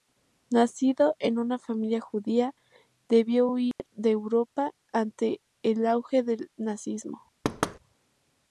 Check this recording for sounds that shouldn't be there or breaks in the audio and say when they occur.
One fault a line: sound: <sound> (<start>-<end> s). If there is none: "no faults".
sound: dropout (3.7-3.8 s)
sound: thud (7.4-7.8 s)